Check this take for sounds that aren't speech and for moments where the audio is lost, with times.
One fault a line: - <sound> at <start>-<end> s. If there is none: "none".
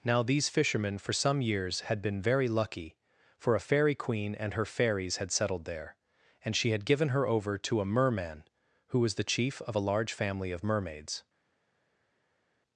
none